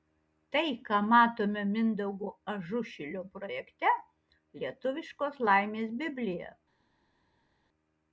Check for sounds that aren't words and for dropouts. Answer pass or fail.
pass